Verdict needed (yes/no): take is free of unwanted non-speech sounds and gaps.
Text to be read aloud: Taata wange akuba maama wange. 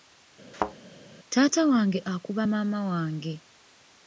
no